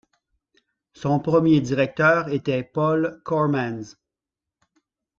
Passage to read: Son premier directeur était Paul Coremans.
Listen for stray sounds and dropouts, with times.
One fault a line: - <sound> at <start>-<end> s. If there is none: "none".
none